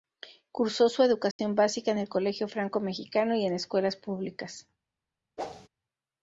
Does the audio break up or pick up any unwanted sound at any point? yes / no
yes